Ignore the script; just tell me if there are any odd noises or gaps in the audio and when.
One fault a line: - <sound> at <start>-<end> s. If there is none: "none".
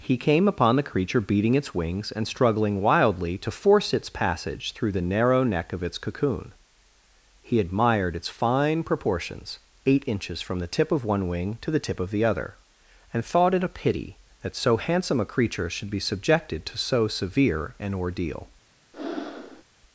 - breath at 18.9-19.6 s